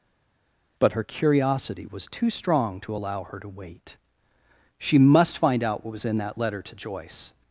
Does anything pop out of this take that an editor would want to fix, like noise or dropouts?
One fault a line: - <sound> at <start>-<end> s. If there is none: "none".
none